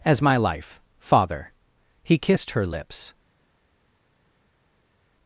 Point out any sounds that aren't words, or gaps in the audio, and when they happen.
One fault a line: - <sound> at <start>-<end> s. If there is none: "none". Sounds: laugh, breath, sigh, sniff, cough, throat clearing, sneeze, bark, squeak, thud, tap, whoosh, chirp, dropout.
none